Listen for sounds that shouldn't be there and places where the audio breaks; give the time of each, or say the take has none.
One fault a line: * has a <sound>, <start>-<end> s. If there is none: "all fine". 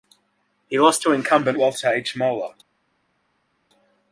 all fine